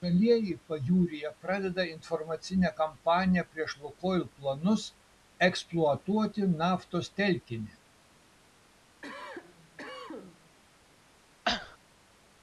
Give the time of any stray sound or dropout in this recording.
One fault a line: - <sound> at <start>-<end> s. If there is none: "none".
- cough at 9.0-10.6 s
- cough at 11.4-11.8 s